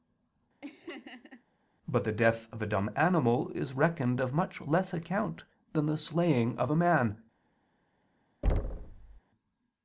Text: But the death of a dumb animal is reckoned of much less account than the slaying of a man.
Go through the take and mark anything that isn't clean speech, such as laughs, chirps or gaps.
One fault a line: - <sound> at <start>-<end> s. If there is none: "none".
- laugh at 0.6-1.4 s
- thud at 8.4-9.2 s